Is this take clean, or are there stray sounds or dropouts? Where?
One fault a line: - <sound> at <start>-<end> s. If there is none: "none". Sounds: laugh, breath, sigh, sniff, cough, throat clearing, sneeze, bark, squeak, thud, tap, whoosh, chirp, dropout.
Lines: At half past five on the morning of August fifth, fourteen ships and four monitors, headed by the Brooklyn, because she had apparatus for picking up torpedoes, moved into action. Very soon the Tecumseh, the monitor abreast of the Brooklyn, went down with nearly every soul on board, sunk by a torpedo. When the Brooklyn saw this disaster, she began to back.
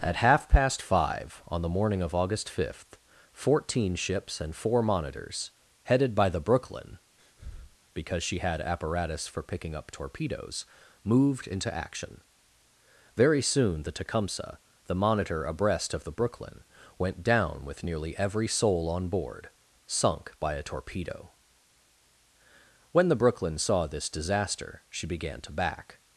- breath at 7.2-7.8 s